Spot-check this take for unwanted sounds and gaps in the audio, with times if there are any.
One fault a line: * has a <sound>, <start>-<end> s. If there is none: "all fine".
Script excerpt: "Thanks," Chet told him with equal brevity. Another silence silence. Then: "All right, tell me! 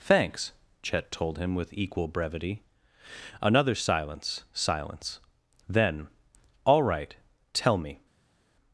all fine